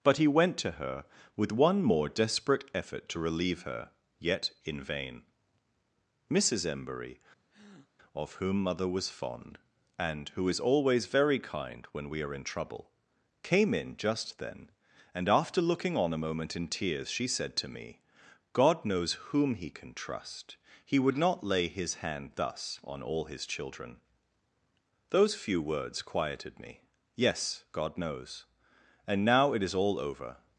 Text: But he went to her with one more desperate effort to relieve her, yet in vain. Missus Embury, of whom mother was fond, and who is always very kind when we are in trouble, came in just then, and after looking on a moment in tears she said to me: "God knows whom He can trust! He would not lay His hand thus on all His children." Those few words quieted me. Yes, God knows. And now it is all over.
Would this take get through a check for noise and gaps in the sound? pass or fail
fail